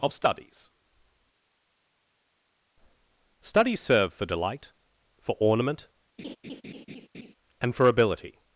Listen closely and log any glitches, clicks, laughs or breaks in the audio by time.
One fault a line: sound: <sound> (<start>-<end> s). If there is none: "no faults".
sound: laugh (6.2-7.3 s)